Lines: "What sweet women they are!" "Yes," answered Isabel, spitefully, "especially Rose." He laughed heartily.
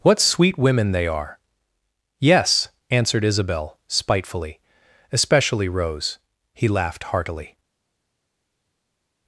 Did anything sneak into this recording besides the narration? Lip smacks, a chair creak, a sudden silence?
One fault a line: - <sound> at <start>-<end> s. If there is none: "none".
none